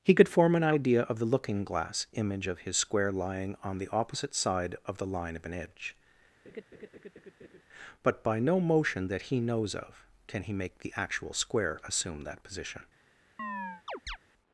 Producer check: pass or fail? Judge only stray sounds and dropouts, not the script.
fail